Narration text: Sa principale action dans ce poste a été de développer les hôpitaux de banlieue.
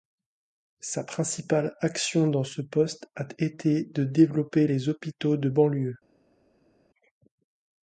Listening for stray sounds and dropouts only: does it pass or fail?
pass